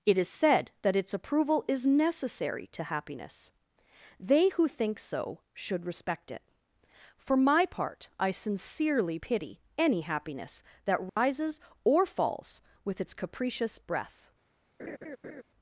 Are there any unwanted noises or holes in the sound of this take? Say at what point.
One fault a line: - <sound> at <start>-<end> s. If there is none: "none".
- dropout at 11.1-11.2 s
- laugh at 14.8-15.4 s